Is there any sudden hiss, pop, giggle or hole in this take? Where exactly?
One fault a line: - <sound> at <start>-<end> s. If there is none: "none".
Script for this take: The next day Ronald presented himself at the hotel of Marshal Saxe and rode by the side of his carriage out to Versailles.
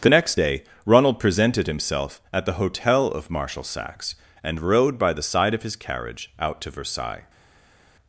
none